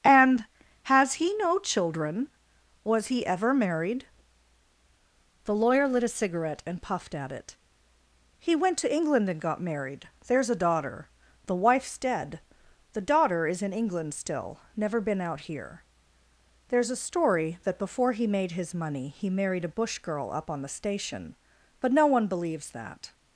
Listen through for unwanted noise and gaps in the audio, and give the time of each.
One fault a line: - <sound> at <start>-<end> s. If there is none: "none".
none